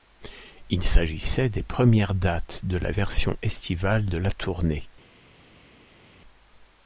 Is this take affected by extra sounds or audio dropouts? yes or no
no